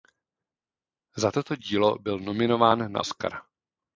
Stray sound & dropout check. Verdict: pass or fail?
pass